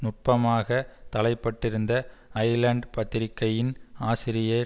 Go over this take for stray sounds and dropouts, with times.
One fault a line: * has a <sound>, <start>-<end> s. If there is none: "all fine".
all fine